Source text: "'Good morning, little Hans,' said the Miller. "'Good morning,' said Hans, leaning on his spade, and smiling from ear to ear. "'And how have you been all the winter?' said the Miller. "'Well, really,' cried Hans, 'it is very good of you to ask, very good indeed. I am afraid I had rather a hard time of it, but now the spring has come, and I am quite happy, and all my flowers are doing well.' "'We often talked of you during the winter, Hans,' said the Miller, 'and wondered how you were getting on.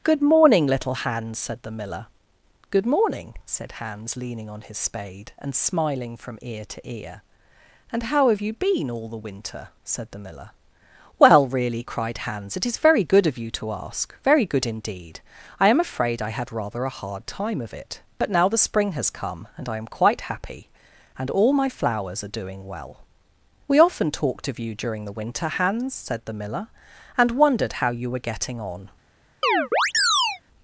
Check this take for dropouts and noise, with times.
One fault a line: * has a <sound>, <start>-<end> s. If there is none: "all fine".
* has a chirp, 29.4-30.4 s